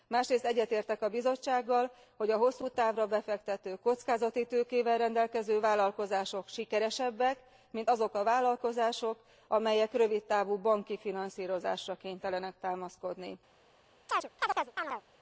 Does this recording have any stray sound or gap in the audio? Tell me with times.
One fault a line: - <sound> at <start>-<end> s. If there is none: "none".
- chirp at 14.1-15.0 s